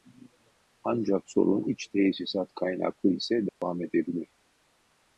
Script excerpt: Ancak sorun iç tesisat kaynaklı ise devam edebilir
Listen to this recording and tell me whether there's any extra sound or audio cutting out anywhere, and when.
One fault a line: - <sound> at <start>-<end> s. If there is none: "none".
- dropout at 3.5-3.6 s